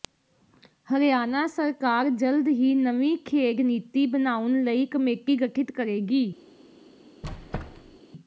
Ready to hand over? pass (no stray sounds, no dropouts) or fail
fail